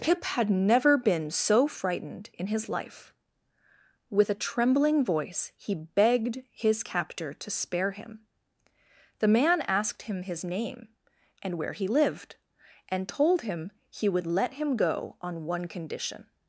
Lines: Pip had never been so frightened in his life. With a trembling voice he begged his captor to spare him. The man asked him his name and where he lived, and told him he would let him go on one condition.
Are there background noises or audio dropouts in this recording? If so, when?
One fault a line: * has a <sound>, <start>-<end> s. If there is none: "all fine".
all fine